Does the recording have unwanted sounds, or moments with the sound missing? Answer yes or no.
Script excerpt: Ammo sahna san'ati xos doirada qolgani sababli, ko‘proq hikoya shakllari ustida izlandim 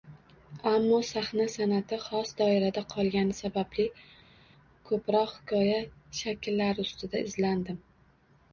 no